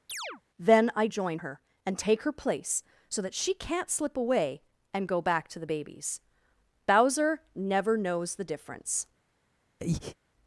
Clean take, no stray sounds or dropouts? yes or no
no